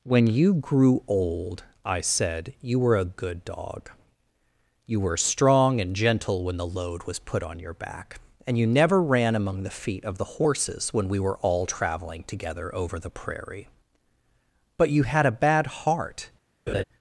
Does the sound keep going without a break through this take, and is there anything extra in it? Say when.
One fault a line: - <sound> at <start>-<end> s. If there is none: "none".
- laugh at 16.7-16.8 s